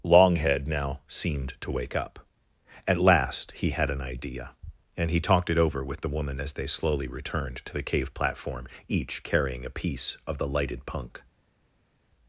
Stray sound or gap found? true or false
false